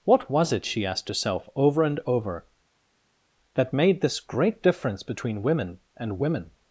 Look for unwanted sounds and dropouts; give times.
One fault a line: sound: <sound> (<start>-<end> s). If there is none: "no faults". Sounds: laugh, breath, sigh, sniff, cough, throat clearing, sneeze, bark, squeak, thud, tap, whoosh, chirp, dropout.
no faults